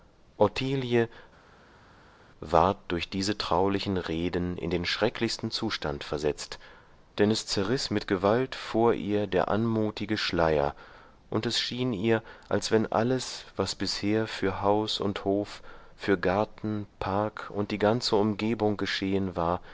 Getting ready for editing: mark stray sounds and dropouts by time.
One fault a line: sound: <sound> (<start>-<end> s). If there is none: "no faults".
no faults